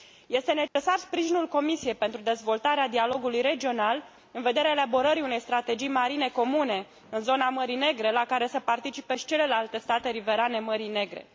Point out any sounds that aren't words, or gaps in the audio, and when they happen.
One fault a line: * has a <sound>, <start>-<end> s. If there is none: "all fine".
* has a dropout, 0.7-0.8 s